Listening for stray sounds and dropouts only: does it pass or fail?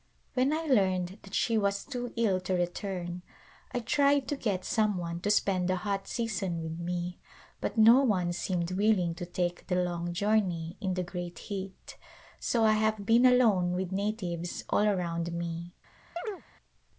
fail